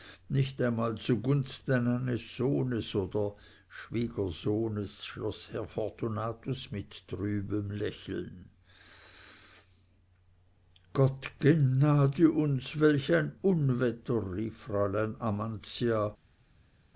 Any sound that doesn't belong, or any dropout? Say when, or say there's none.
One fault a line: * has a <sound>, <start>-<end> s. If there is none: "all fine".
all fine